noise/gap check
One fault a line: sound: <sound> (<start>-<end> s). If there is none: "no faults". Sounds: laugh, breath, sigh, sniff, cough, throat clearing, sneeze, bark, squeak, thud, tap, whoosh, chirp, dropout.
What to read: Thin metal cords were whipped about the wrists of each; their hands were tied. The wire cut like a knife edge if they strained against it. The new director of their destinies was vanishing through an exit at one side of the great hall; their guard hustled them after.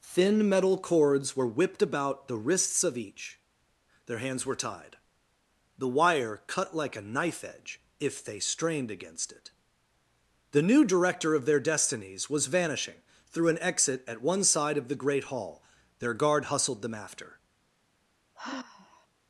sound: sigh (18.3-19.1 s)